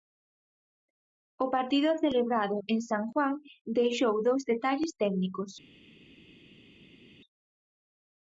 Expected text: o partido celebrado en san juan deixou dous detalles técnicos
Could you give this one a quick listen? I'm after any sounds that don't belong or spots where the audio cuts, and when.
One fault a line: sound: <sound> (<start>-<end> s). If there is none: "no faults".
no faults